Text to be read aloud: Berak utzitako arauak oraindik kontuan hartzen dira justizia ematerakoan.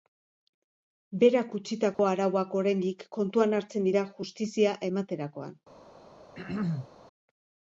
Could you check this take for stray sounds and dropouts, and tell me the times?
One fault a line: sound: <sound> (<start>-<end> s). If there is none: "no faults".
sound: dropout (1.9-2.0 s)
sound: throat clearing (6.3-6.9 s)